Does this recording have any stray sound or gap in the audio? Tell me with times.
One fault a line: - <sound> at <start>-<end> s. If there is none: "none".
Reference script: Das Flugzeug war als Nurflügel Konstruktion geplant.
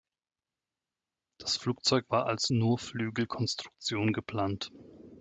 none